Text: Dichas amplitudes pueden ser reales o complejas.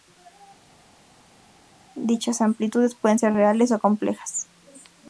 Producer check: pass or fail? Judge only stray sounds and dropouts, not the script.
pass